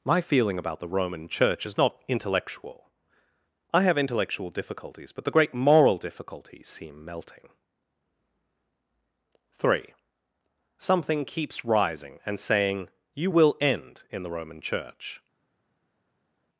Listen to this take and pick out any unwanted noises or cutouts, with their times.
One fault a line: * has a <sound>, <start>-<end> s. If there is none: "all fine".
all fine